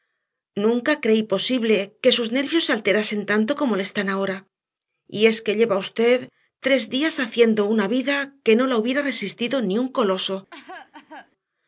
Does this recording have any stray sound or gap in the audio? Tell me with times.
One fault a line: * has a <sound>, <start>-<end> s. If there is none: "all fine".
* has a cough, 10.5-11.3 s